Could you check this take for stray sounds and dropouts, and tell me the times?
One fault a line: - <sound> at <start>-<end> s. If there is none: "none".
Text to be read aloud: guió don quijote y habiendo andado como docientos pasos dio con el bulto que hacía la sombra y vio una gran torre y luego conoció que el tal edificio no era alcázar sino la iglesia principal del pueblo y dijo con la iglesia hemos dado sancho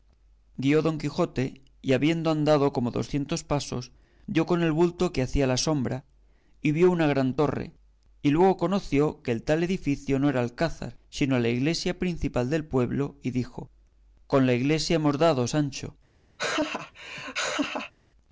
- laugh at 16.4-17.9 s